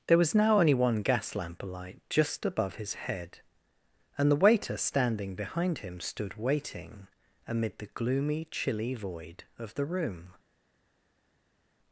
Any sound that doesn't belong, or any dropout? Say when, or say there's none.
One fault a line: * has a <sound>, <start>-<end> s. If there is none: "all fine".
all fine